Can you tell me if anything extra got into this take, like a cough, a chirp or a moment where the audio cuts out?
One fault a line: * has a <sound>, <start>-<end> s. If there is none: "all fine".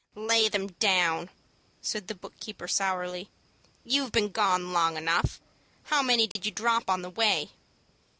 * has a dropout, 6.3-6.4 s